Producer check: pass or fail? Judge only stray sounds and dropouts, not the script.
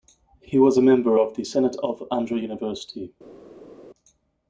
pass